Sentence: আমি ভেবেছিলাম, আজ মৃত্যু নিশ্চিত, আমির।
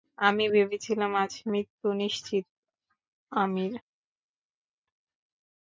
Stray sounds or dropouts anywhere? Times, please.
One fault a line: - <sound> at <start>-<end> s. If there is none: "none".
none